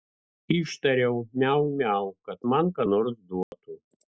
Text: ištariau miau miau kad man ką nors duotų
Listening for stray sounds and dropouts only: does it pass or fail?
fail